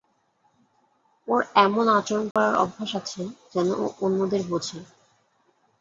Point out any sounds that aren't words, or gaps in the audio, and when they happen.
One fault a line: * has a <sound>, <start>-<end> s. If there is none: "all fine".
* has a dropout, 2.3-2.4 s